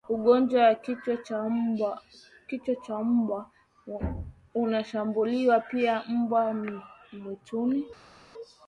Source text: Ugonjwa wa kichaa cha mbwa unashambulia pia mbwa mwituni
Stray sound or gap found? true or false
false